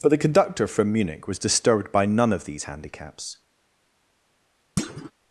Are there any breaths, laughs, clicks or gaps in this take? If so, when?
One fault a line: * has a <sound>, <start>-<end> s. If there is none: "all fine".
* has a thud, 4.8-5.1 s